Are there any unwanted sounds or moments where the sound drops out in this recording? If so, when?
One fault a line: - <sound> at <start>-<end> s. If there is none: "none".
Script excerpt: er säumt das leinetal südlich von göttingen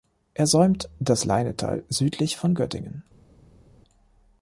none